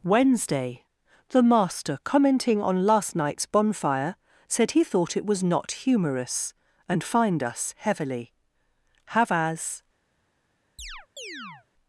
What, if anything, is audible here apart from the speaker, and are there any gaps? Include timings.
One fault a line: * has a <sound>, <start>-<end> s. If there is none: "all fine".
* has a chirp, 10.8-11.7 s